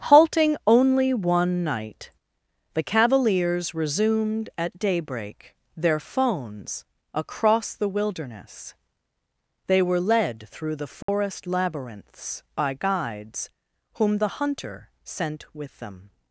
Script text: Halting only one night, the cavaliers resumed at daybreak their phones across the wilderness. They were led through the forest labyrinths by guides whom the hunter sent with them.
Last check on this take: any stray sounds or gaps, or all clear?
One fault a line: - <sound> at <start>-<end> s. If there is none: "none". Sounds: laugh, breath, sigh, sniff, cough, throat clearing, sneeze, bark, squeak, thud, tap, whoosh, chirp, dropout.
- dropout at 11.0-11.1 s